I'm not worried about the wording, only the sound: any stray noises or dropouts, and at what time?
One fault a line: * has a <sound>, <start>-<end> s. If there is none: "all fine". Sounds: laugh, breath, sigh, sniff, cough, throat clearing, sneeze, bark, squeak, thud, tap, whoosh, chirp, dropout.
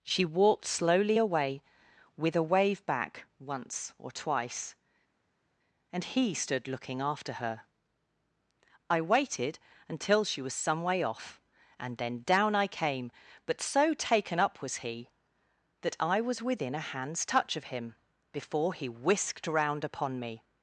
all fine